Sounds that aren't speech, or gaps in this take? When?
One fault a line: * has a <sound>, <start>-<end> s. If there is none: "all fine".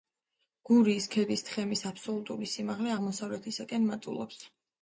all fine